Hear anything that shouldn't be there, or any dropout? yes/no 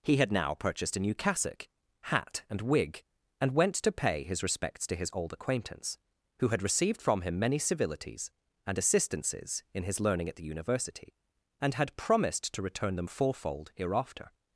no